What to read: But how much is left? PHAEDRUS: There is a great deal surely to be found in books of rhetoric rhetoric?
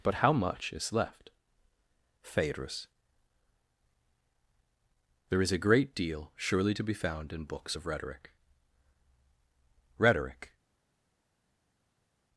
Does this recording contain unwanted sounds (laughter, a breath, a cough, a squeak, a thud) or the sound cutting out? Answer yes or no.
no